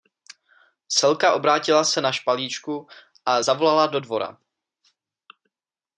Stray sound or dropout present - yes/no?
no